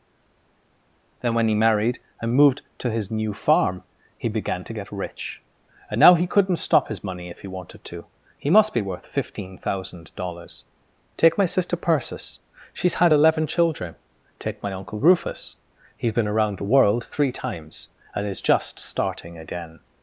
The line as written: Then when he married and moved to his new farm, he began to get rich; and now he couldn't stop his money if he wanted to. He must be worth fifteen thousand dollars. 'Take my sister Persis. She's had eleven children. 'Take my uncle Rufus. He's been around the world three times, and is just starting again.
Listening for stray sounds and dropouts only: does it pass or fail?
pass